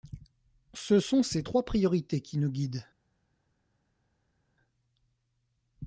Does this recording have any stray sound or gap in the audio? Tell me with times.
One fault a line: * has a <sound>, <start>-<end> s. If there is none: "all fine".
all fine